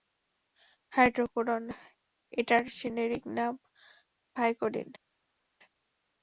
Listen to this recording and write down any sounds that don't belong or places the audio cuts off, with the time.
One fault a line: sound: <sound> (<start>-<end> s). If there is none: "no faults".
no faults